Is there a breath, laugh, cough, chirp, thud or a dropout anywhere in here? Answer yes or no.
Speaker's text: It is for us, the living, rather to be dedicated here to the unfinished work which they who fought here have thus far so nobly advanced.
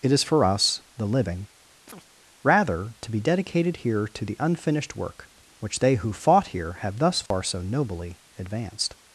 yes